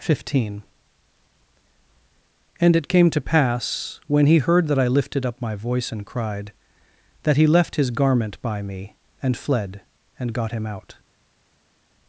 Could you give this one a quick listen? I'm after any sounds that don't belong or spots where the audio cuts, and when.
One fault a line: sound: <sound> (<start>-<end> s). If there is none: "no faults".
no faults